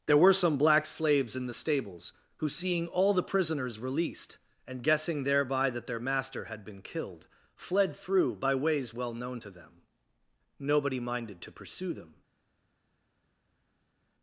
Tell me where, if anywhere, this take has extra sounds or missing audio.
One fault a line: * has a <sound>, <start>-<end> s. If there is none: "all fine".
all fine